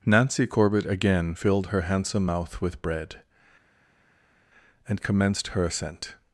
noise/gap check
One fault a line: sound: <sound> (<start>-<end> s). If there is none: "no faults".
no faults